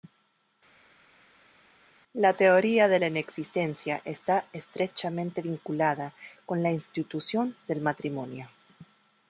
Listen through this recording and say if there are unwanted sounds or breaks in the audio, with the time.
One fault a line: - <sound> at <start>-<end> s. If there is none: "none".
none